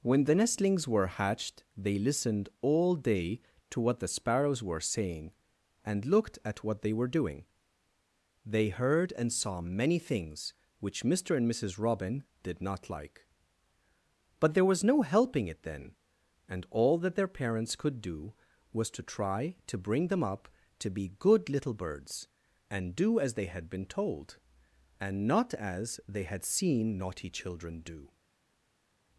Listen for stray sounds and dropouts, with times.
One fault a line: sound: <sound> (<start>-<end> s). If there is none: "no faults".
no faults